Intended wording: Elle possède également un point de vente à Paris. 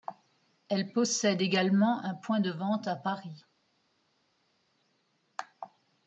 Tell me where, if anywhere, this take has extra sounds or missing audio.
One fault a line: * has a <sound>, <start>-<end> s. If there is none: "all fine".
all fine